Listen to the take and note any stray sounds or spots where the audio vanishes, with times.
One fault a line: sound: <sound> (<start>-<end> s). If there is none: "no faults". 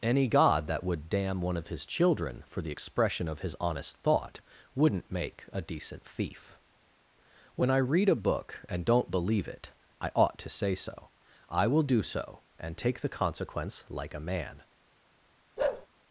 sound: bark (15.6-15.9 s)